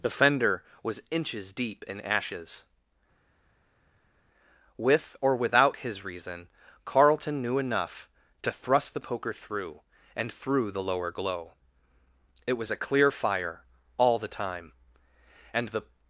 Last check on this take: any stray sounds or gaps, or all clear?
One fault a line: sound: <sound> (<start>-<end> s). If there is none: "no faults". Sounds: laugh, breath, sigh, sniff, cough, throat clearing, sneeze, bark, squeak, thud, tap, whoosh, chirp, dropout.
no faults